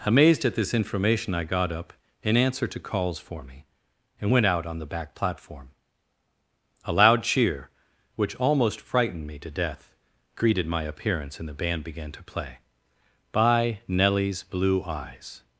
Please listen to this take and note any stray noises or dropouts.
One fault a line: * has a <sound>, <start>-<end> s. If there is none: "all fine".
all fine